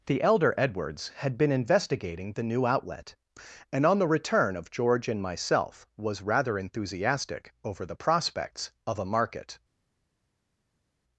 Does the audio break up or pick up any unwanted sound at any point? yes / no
no